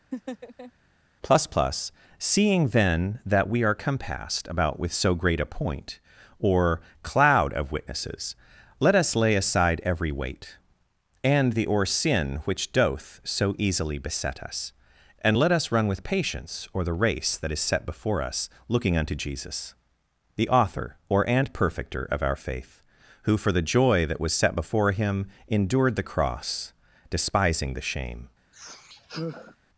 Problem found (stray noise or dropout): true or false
true